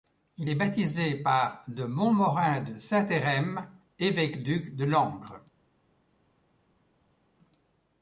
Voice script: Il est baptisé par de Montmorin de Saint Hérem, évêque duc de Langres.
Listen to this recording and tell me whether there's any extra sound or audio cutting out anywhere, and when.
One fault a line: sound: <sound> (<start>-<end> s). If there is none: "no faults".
no faults